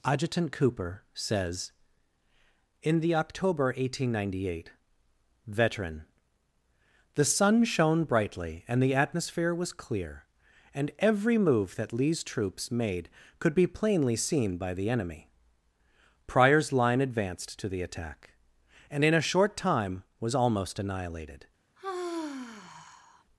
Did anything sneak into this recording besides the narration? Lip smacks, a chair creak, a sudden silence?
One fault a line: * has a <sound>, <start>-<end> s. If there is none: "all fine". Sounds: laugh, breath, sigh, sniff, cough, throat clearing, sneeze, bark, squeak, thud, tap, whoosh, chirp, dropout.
* has a sigh, 21.8-23.2 s